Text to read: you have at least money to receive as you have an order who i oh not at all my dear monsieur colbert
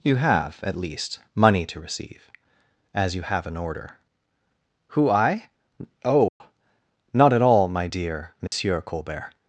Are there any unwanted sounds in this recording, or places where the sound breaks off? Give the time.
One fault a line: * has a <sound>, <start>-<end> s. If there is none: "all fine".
* has a dropout, 6.3-6.4 s
* has a dropout, 8.5-8.5 s